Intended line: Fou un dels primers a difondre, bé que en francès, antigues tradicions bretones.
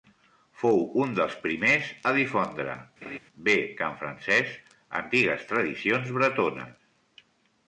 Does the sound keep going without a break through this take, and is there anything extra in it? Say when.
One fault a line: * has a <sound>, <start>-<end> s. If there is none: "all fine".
* has a laugh, 3.0-3.2 s